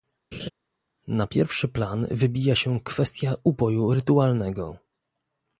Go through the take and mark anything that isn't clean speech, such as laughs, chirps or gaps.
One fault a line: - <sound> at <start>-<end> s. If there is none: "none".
- laugh at 0.3-0.5 s